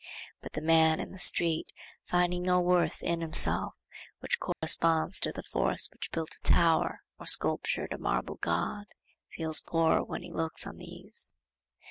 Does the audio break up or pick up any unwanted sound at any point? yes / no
yes